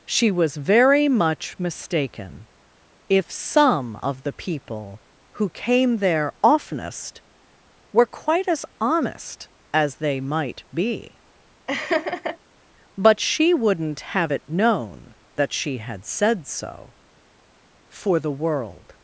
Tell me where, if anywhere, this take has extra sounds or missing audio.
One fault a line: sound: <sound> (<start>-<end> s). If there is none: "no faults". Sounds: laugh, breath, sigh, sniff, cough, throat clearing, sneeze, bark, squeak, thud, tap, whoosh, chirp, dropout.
sound: laugh (11.7-12.4 s)